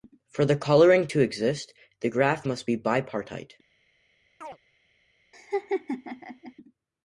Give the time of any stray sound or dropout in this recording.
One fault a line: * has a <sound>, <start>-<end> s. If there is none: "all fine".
* has a chirp, 4.4-4.6 s
* has a laugh, 5.3-6.5 s